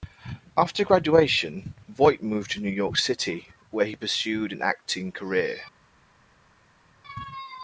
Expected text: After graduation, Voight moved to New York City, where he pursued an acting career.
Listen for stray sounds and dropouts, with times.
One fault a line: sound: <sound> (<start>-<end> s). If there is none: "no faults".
no faults